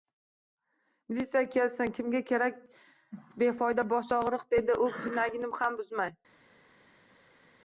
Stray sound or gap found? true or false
false